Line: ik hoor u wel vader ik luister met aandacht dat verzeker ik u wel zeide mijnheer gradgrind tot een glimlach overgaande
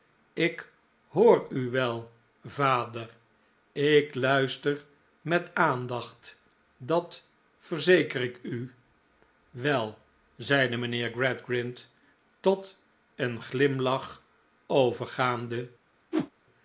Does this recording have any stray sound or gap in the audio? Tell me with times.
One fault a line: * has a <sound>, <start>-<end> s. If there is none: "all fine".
* has a whoosh, 16.1-16.3 s